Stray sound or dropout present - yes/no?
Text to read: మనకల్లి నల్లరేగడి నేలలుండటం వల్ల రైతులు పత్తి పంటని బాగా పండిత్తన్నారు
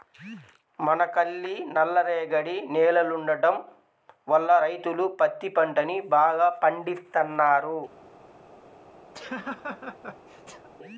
yes